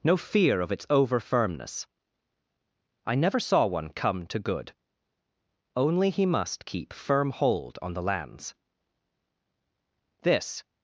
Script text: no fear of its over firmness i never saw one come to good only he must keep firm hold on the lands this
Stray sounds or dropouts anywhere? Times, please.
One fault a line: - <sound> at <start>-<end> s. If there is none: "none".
none